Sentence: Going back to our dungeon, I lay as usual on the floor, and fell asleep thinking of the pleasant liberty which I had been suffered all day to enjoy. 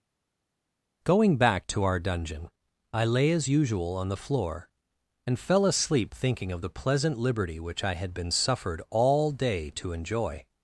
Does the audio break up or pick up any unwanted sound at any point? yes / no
no